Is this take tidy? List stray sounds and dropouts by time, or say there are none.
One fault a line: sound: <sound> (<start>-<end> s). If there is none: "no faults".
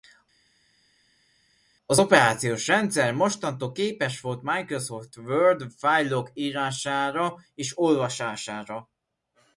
no faults